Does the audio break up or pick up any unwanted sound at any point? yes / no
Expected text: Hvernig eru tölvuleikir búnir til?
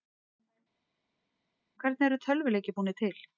no